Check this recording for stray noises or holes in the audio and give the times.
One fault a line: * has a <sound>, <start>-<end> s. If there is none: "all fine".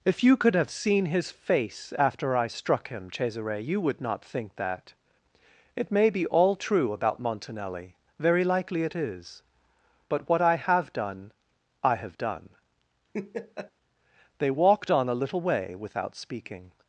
* has a laugh, 13.1-13.7 s